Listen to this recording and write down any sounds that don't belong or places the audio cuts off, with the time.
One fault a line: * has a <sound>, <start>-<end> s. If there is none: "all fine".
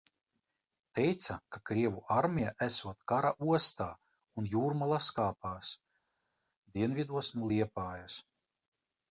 all fine